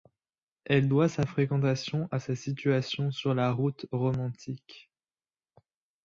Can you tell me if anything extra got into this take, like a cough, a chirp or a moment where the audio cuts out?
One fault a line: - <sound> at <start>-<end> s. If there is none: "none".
none